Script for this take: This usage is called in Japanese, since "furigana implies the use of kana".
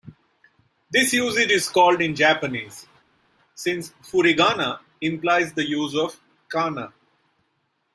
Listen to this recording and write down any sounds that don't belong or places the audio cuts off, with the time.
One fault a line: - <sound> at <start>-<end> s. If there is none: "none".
none